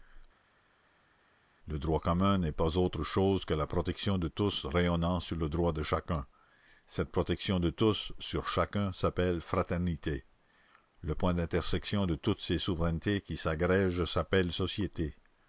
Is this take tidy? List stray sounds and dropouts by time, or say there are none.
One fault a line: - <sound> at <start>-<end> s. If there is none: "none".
none